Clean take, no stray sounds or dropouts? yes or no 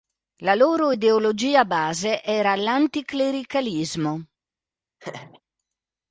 no